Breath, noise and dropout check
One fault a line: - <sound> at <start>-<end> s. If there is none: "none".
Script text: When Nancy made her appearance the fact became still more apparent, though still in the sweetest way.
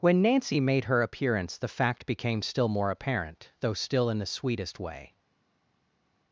none